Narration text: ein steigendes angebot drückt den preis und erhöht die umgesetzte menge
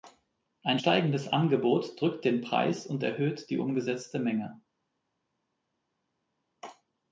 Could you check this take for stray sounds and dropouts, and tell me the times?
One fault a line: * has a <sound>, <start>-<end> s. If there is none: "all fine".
all fine